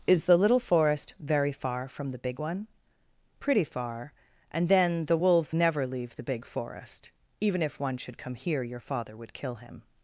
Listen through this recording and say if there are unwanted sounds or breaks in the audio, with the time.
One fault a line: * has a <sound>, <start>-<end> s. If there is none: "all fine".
all fine